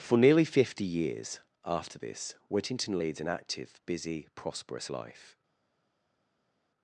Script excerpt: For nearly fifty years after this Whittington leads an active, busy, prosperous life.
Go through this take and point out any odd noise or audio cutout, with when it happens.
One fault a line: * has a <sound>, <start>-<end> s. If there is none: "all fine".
all fine